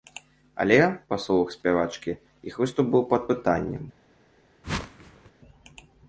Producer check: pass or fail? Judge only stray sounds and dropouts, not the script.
fail